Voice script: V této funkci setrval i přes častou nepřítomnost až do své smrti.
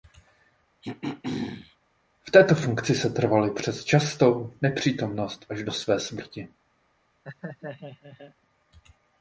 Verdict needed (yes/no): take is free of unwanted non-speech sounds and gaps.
no